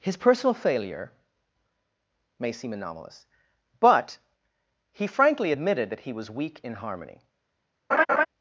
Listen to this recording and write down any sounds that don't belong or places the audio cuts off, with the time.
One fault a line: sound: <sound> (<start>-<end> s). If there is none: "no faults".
sound: laugh (7.9-8.3 s)